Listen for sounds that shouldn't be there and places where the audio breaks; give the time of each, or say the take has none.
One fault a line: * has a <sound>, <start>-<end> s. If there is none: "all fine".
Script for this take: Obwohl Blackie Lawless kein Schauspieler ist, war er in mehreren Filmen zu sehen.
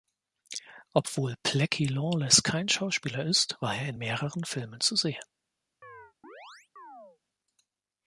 * has a chirp, 5.8-7.2 s